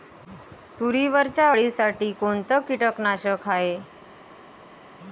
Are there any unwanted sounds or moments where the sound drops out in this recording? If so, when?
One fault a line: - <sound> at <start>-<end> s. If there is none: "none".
none